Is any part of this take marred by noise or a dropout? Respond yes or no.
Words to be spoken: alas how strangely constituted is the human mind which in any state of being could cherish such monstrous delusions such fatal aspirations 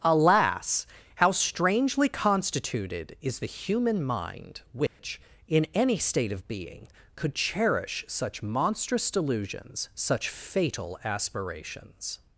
yes